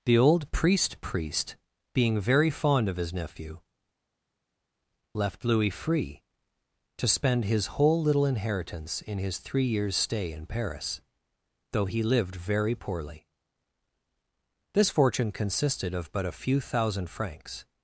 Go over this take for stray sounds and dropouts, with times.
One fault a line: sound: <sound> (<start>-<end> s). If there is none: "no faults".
no faults